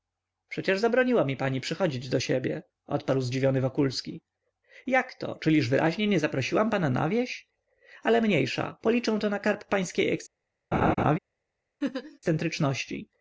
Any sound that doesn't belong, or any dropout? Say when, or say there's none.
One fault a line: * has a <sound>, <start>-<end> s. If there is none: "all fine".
* has a laugh, 10.7-11.2 s
* has a laugh, 11.8-12.2 s